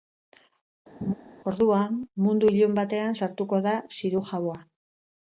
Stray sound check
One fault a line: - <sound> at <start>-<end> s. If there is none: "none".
- laugh at 1.0-1.1 s